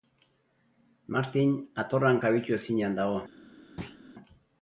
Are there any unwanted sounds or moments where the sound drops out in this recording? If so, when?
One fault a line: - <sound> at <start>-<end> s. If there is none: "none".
- thud at 3.8-4.0 s